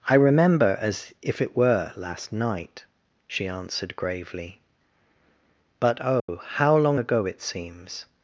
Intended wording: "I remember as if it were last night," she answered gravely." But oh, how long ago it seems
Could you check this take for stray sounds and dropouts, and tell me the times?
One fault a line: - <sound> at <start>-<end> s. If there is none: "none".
- dropout at 6.2-6.3 s